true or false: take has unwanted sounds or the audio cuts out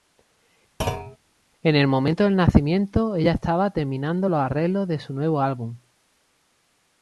true